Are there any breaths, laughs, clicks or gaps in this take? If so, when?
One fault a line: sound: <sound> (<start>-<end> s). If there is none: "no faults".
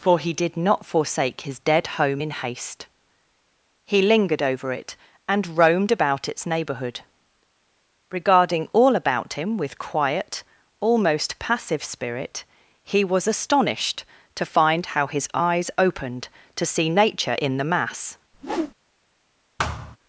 sound: whoosh (18.3-18.7 s)
sound: thud (19.6-20.0 s)